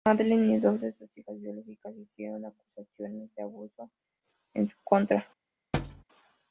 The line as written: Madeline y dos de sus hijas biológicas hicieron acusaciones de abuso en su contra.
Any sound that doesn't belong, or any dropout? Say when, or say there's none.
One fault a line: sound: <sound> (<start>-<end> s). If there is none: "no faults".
sound: thud (5.7-6.0 s)